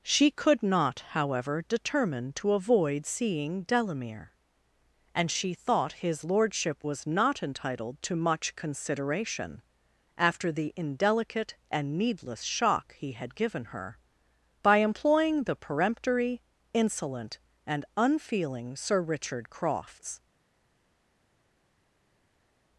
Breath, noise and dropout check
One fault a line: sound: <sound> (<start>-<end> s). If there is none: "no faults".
no faults